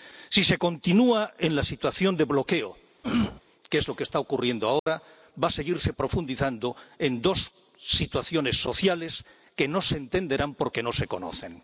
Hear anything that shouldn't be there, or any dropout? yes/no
yes